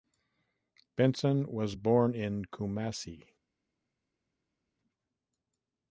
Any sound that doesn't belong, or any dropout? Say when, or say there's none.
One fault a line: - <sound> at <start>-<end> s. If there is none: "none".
none